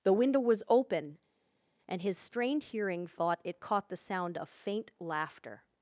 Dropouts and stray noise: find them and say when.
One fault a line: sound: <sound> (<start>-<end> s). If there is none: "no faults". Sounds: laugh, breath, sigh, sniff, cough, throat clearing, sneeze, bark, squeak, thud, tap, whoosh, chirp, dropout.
no faults